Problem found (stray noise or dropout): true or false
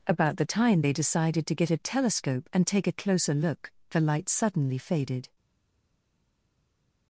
false